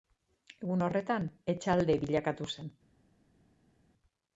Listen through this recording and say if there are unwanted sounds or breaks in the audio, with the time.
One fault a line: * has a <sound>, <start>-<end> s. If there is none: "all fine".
all fine